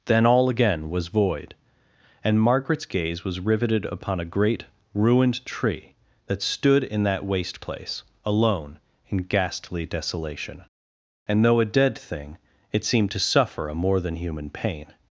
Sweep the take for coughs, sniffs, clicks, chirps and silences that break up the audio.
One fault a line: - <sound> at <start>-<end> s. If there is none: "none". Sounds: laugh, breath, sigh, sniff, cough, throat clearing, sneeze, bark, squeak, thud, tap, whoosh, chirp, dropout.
none